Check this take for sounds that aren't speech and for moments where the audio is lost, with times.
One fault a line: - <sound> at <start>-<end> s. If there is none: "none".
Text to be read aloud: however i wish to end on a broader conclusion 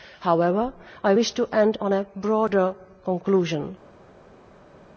none